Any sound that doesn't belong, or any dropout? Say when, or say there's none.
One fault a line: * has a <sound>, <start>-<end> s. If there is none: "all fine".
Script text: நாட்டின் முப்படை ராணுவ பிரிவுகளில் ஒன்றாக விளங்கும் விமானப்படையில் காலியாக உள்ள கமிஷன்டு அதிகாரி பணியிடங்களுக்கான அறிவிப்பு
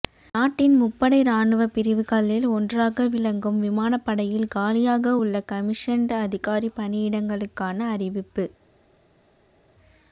all fine